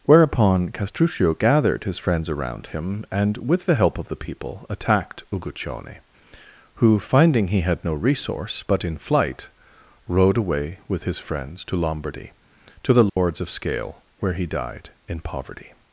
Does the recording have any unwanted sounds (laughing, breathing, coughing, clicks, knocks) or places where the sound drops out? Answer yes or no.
yes